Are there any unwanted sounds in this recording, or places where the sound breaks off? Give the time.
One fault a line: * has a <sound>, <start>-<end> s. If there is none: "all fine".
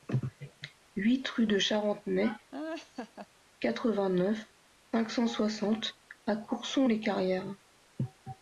* has a laugh, 2.5-3.3 s